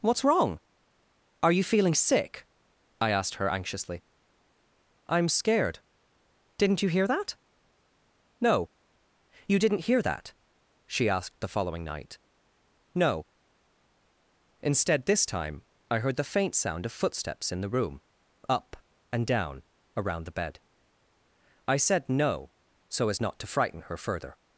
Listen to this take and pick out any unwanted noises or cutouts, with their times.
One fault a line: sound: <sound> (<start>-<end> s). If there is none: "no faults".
no faults